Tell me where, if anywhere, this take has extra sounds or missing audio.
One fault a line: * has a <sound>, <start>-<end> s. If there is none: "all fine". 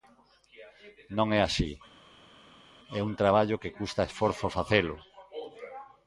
all fine